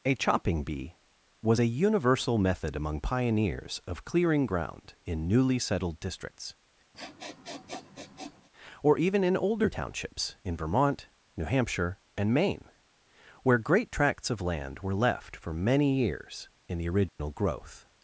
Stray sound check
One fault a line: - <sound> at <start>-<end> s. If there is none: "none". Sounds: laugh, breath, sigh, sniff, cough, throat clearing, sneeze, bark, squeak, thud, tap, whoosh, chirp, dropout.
- sniff at 6.9-8.5 s
- dropout at 17.1-17.2 s